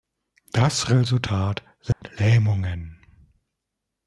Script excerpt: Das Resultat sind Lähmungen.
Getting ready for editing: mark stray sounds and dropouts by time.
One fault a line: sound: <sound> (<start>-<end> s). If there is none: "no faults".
sound: dropout (1.9-2.0 s)